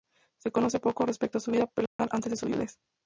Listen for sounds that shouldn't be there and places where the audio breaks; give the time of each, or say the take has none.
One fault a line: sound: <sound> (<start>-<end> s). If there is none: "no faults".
sound: dropout (1.9-2.0 s)